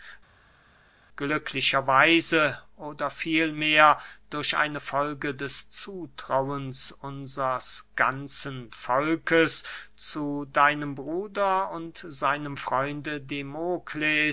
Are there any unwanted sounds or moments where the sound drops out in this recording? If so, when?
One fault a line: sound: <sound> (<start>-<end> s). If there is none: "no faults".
no faults